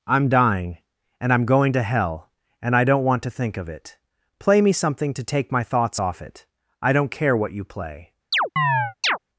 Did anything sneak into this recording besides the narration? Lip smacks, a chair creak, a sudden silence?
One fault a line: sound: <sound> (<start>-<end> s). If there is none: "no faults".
sound: chirp (8.3-9.2 s)